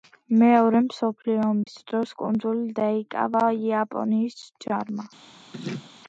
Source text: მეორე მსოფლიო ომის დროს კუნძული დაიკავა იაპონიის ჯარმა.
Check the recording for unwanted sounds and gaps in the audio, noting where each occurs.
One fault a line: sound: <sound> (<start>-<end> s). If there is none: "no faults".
sound: dropout (1.6-1.7 s)
sound: laugh (5.5-5.9 s)